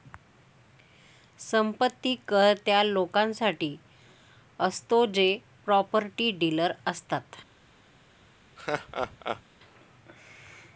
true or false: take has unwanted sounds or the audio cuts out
true